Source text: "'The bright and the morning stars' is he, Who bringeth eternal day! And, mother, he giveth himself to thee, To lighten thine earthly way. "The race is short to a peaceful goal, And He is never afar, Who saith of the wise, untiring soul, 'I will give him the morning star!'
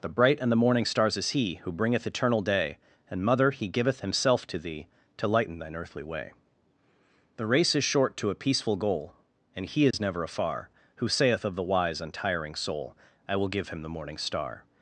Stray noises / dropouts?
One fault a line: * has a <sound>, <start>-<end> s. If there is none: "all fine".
* has a dropout, 9.9-9.9 s